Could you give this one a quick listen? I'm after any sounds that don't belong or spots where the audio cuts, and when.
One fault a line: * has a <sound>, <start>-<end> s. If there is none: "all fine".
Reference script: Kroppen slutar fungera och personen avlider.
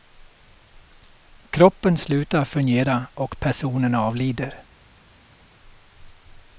all fine